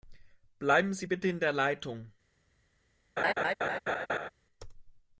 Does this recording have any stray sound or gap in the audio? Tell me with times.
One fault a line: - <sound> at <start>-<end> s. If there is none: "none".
- laugh at 3.2-4.3 s